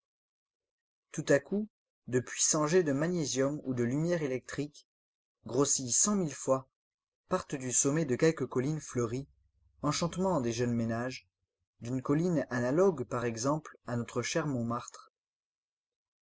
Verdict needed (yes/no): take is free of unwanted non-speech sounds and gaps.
yes